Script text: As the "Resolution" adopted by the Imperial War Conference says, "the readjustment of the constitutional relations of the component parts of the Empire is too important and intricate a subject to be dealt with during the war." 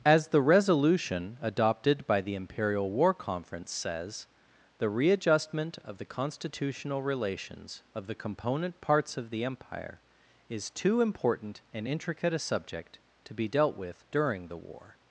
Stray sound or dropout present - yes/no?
no